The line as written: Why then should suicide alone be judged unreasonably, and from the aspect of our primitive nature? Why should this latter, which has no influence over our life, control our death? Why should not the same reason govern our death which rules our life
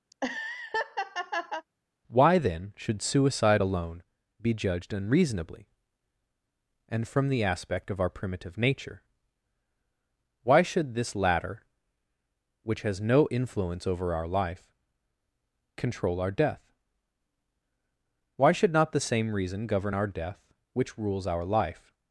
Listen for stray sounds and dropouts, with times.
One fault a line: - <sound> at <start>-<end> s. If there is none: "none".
- laugh at 0.1-1.7 s